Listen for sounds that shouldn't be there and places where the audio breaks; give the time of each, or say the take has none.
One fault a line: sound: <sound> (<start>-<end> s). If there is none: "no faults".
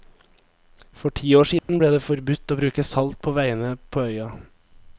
sound: dropout (1.6-1.7 s)